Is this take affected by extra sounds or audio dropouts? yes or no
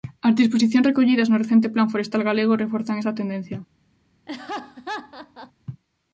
yes